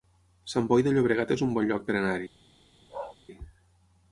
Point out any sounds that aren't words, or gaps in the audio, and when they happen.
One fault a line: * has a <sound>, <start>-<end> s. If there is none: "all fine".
* has a bark, 2.9-3.2 s